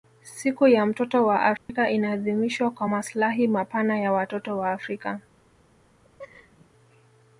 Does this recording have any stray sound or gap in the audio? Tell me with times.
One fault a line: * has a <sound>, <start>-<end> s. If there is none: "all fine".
* has a dropout, 1.6-1.7 s
* has a laugh, 6.0-6.7 s